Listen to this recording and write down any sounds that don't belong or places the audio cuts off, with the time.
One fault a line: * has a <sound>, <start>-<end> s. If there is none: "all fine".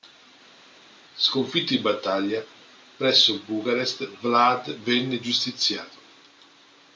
all fine